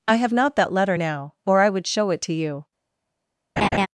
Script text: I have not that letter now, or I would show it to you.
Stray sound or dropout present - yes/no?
yes